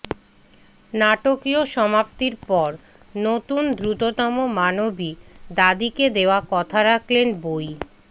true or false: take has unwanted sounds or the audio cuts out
false